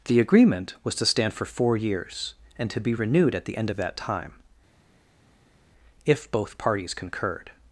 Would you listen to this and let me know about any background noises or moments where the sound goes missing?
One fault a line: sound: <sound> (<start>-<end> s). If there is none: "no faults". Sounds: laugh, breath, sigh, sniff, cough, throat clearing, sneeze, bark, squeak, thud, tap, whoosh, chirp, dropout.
no faults